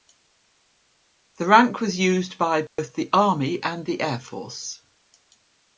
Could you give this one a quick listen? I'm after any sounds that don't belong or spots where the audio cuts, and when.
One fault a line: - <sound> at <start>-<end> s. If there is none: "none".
- dropout at 2.7-2.8 s